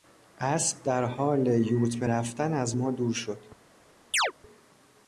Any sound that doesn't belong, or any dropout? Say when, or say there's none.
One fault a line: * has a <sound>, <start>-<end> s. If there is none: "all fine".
* has a chirp, 4.1-4.3 s